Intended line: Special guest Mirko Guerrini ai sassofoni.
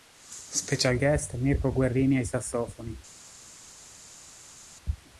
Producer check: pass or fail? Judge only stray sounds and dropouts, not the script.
pass